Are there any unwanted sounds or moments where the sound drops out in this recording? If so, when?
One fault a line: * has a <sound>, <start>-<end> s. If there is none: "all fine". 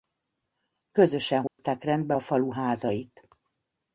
* has a dropout, 1.5-1.6 s